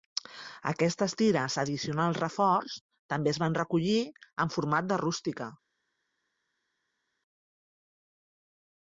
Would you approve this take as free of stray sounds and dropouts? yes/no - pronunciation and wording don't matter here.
yes